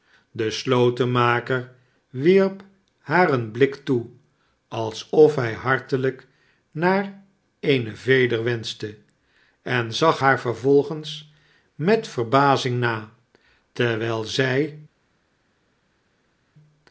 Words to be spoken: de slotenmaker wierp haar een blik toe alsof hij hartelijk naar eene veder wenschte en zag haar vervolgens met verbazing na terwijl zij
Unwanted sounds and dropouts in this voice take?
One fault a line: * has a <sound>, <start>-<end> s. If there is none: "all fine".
all fine